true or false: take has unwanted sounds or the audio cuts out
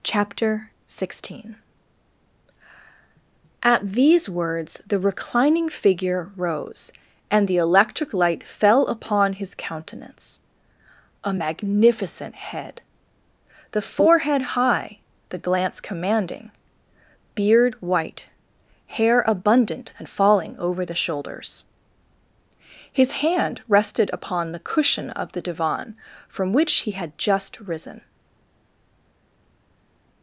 false